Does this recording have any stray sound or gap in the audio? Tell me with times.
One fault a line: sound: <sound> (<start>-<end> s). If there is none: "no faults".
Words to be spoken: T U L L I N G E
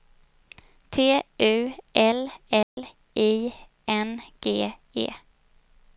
sound: dropout (2.6-2.8 s)